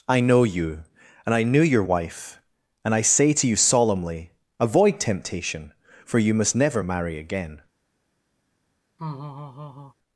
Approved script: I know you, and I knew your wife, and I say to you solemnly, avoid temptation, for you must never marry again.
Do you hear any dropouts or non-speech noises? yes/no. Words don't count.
yes